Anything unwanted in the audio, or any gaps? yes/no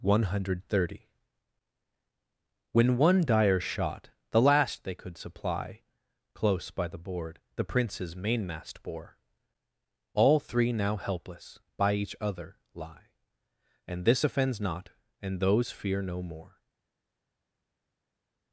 no